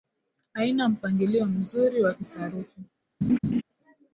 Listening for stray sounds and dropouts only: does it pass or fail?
fail